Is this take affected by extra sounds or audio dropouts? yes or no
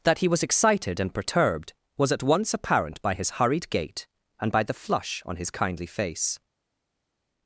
no